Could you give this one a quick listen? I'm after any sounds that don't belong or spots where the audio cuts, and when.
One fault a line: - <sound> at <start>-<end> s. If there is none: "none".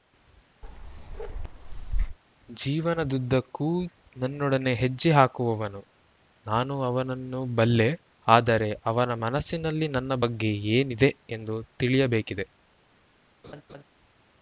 - bark at 0.6-2.2 s
- laugh at 13.4-13.8 s